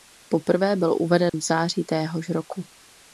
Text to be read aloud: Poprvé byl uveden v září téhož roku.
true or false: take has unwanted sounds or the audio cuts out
true